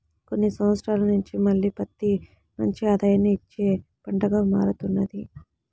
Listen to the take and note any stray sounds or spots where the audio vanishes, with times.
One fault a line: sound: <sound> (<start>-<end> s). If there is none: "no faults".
no faults